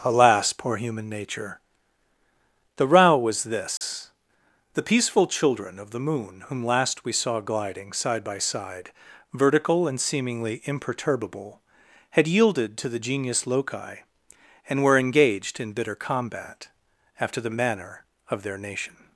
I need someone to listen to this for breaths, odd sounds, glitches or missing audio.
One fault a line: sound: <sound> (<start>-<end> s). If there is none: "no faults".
sound: dropout (3.8-3.8 s)